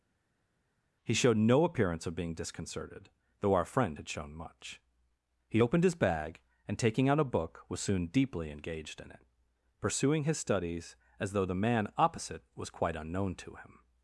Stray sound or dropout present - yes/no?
no